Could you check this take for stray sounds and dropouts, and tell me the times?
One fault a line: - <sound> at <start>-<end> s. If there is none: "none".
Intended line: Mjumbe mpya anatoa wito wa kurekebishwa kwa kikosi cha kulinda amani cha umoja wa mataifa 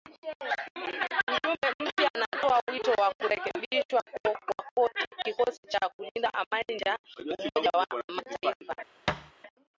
- thud at 9.1-9.3 s